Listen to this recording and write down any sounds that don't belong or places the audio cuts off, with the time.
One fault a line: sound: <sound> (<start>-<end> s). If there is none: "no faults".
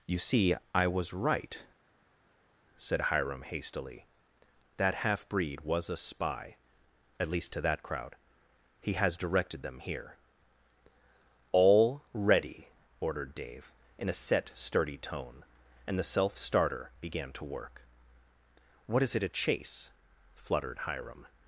no faults